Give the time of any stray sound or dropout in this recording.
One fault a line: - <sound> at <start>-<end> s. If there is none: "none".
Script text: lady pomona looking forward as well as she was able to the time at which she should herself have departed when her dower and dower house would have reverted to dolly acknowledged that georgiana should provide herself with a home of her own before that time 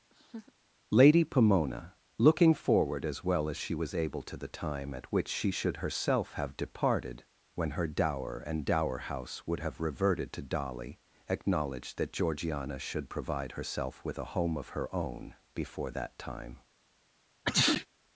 - laugh at 0.1-0.5 s
- sneeze at 17.4-17.9 s